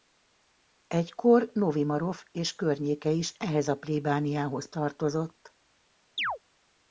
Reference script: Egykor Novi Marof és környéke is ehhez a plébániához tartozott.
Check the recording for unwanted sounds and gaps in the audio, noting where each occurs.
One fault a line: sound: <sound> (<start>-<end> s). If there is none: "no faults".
sound: chirp (6.2-6.4 s)